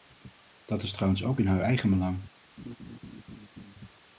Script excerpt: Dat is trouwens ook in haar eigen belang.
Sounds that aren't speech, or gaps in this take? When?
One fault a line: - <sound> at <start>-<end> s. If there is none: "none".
- laugh at 2.6-3.7 s